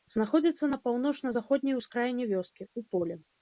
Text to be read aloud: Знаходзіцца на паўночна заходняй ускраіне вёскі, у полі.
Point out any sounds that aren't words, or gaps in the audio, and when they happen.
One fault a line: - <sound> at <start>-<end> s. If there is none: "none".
none